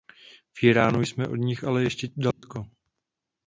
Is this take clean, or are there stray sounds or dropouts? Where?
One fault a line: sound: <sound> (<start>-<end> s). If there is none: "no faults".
sound: dropout (2.3-2.4 s)